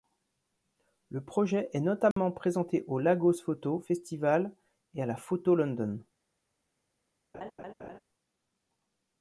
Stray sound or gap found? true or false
true